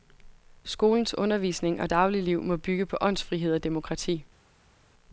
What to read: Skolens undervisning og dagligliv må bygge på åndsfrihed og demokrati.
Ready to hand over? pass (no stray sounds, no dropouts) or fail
pass